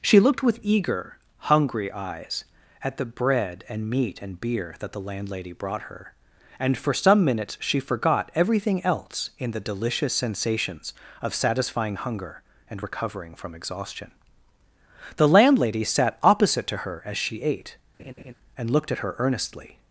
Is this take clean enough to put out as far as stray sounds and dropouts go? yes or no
no